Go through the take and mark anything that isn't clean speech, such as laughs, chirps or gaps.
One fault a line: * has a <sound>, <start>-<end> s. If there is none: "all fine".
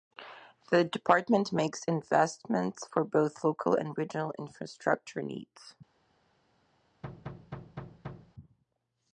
* has a thud, 7.0-8.3 s